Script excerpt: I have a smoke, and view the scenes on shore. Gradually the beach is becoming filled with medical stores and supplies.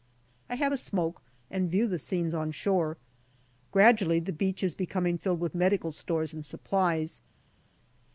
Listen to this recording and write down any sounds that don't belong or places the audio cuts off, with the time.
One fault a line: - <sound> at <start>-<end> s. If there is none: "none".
none